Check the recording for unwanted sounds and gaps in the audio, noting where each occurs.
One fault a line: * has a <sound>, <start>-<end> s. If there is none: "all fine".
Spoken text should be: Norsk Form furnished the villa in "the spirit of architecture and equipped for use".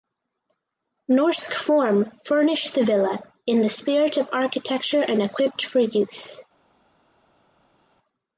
all fine